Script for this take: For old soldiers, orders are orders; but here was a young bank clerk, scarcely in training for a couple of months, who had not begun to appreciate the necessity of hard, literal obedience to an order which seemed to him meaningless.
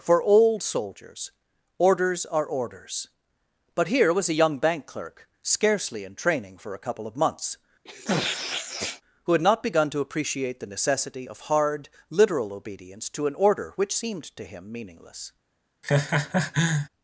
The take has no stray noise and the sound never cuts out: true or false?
false